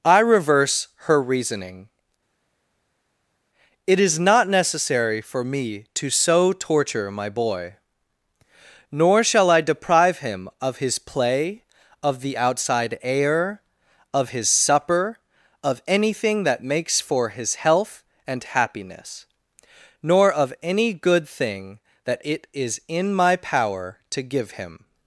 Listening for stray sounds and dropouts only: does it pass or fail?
pass